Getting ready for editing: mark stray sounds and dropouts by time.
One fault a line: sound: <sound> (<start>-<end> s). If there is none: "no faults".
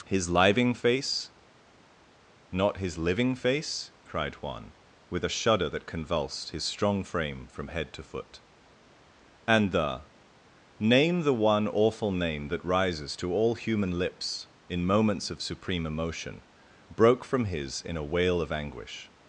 no faults